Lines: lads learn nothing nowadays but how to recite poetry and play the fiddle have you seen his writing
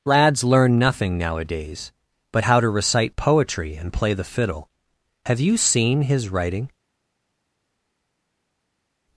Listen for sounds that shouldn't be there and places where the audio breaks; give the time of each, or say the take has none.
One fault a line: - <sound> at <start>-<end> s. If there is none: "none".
none